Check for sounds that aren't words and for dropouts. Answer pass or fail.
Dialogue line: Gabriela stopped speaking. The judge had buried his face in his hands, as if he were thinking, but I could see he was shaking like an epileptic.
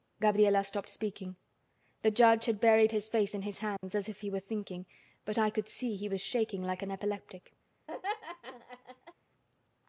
fail